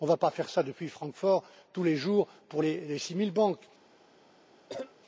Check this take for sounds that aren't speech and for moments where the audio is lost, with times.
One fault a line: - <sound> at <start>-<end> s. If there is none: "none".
- cough at 4.7-4.9 s